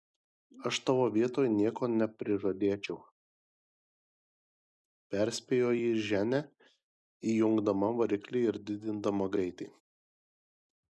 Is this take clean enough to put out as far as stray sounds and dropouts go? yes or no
yes